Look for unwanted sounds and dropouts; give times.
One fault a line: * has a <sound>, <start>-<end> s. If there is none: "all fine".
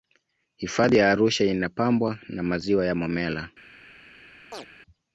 * has a chirp, 4.5-4.7 s